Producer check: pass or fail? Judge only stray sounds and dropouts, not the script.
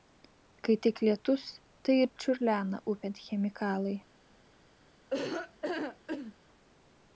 fail